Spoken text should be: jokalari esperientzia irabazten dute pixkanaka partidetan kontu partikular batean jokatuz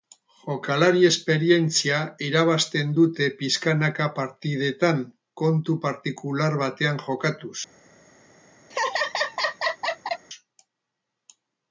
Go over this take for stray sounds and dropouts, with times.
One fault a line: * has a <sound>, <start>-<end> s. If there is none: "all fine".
* has a laugh, 8.7-10.3 s